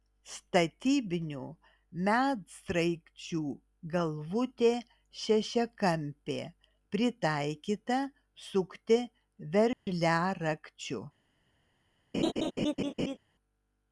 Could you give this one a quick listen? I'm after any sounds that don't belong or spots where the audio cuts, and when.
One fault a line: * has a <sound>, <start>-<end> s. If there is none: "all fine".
* has a dropout, 9.7-9.9 s
* has a laugh, 12.1-13.2 s